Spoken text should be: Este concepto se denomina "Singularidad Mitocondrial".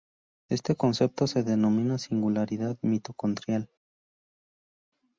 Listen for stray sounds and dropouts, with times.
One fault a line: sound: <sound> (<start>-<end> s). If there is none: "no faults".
no faults